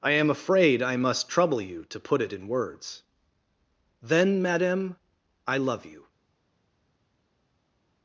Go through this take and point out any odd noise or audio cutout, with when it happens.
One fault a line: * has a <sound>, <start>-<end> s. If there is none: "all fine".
all fine